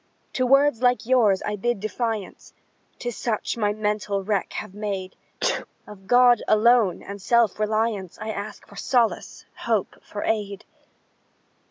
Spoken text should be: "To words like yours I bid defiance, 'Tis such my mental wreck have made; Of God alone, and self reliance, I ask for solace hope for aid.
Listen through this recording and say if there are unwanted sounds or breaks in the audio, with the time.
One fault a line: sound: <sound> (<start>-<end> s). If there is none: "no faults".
sound: sneeze (5.4-5.7 s)